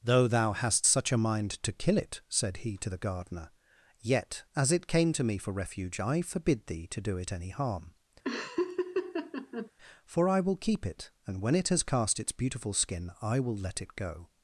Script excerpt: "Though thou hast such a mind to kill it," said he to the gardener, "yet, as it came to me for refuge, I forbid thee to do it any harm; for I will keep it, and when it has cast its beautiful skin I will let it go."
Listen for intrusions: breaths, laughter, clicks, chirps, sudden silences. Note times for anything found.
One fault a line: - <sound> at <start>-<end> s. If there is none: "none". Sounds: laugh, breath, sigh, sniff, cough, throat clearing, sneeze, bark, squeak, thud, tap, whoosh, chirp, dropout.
- laugh at 8.2-9.7 s